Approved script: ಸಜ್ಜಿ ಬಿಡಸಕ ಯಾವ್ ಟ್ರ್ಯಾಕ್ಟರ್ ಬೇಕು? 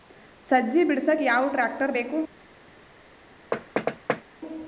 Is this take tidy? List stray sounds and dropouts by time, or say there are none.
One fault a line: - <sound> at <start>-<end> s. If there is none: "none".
- thud at 3.5-4.2 s